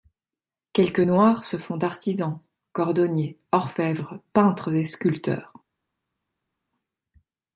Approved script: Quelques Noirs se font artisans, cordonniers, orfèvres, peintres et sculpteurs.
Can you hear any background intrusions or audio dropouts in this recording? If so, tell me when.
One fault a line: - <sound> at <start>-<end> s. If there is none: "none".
none